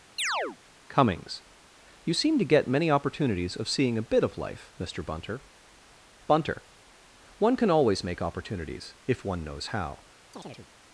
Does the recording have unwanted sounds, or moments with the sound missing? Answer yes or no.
yes